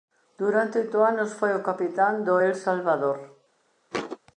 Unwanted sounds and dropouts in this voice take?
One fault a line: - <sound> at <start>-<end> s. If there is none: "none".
- thud at 3.9-4.2 s